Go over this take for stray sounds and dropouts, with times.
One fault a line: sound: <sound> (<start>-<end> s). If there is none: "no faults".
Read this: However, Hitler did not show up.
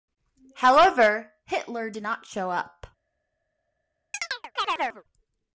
sound: chirp (4.1-5.0 s)